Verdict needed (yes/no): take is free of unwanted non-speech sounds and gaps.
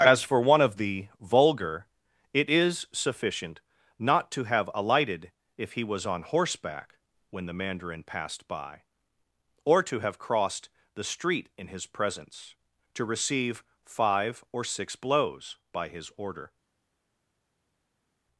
yes